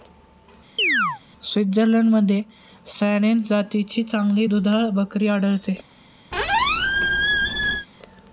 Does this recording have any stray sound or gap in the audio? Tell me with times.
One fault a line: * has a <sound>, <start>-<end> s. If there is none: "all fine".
* has a chirp, 0.8-1.2 s
* has a squeak, 6.3-7.9 s